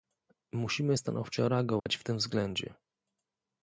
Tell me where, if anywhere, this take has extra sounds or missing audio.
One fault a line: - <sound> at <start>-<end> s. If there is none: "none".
- dropout at 1.8-1.9 s